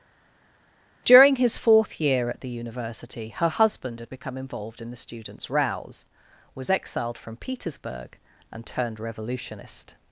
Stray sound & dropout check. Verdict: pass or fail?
pass